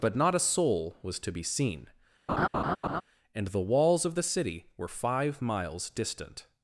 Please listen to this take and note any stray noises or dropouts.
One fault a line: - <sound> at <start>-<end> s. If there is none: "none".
- laugh at 2.3-3.0 s